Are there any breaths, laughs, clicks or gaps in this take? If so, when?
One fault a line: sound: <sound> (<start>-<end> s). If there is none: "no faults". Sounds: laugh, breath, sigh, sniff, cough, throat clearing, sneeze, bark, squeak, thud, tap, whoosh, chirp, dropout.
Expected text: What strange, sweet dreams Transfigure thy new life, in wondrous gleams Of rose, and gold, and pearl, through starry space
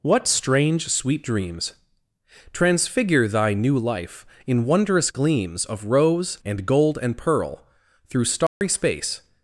sound: dropout (8.5-8.6 s)